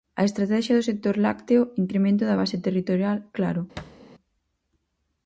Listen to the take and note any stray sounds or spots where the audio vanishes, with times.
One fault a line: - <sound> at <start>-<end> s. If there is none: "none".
- thud at 3.8-4.0 s